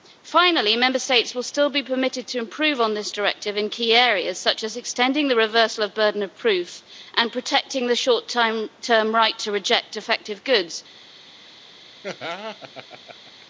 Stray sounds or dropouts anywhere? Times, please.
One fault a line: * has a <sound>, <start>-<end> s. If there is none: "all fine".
* has a laugh, 12.0-13.5 s